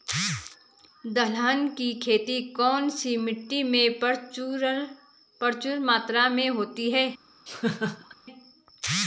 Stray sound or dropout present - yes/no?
yes